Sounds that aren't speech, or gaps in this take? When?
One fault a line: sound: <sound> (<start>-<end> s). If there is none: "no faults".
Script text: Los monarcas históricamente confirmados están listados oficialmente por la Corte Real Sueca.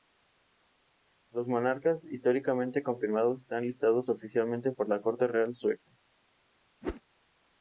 sound: whoosh (6.8-7.0 s)